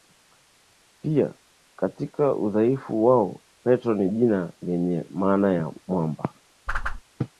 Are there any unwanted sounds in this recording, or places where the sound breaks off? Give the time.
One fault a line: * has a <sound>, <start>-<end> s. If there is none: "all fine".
* has a whoosh, 6.7-7.0 s